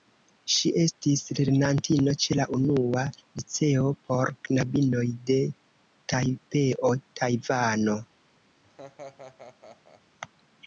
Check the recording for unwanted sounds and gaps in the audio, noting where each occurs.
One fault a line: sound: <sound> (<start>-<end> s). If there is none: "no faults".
sound: laugh (8.6-10.0 s)